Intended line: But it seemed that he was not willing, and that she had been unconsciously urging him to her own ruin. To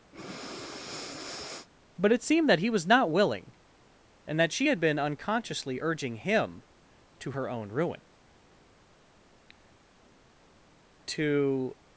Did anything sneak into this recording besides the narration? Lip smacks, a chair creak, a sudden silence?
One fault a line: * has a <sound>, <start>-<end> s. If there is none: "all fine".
* has a breath, 0.1-1.7 s